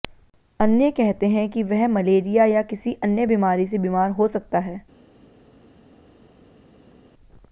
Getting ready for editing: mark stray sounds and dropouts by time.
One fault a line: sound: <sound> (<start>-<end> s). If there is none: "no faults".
no faults